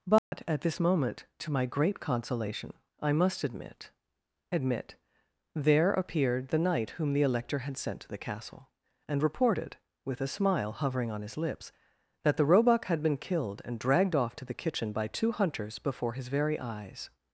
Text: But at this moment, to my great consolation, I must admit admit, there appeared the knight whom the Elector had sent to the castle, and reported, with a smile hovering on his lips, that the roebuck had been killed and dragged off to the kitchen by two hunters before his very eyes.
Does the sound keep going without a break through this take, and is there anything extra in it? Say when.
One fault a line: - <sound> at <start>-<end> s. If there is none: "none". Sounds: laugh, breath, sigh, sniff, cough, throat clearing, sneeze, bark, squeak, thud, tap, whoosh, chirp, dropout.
- dropout at 0.2-0.3 s